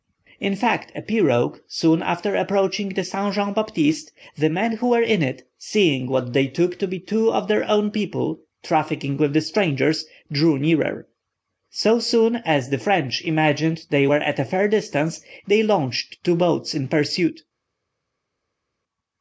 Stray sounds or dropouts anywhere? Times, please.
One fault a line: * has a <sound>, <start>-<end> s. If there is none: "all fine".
all fine